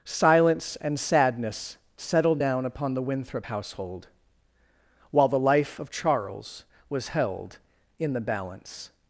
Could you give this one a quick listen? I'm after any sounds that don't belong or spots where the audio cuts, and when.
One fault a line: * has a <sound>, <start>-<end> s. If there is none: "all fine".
all fine